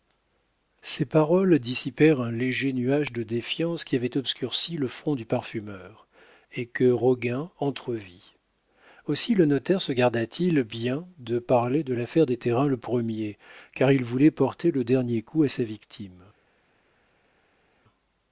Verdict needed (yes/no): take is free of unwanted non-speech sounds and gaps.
yes